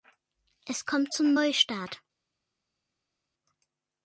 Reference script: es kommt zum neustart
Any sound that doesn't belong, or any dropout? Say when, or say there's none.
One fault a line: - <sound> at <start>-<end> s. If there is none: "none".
none